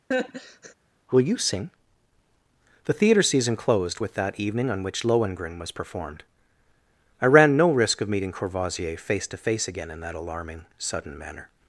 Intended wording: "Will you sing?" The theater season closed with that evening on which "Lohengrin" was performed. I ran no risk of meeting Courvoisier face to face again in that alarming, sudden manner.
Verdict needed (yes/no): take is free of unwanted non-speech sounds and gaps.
no